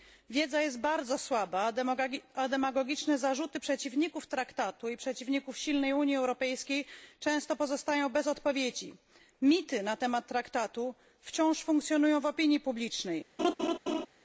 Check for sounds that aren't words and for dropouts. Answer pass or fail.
fail